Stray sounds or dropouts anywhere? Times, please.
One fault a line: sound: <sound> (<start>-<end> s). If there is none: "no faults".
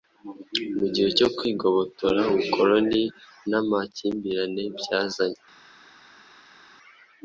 no faults